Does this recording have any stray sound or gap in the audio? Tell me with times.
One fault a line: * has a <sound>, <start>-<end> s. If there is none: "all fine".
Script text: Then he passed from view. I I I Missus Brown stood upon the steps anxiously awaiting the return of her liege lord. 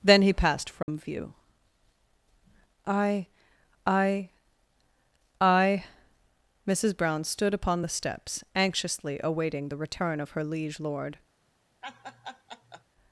* has a dropout, 0.8-0.9 s
* has a laugh, 11.8-12.8 s